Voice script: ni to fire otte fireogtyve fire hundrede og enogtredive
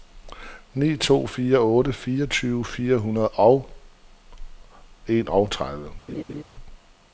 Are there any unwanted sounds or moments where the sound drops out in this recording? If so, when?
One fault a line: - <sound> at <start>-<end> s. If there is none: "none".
- laugh at 6.1-6.4 s